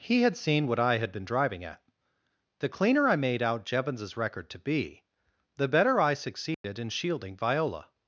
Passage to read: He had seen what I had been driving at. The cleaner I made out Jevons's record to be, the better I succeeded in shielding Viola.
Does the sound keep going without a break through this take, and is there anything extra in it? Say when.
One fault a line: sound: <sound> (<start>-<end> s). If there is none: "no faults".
sound: dropout (6.5-6.6 s)